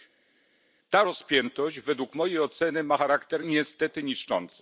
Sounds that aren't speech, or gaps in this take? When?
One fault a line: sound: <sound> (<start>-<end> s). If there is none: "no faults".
no faults